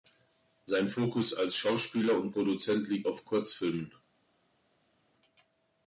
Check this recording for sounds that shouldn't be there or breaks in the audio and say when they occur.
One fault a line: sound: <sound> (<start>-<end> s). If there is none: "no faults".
no faults